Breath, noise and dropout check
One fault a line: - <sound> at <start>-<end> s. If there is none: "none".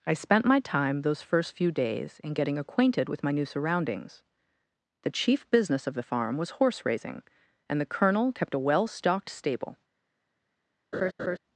- laugh at 10.9-11.4 s